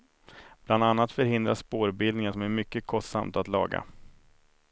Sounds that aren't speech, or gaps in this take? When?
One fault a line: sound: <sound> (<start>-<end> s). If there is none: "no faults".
no faults